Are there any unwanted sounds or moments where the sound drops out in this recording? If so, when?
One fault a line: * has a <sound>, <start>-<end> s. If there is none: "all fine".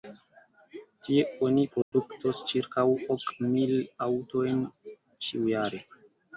* has a dropout, 1.8-1.9 s